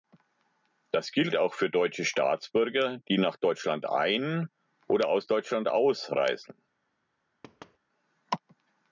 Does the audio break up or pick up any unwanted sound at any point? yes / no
yes